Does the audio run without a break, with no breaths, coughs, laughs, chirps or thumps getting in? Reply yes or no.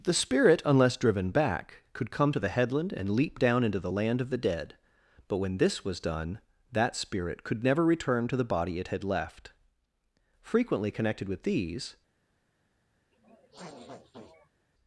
no